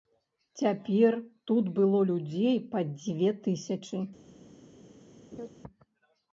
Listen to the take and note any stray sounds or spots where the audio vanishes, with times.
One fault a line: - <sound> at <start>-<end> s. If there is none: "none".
- laugh at 5.3-5.5 s